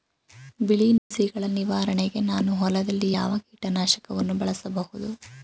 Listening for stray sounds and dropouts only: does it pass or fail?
fail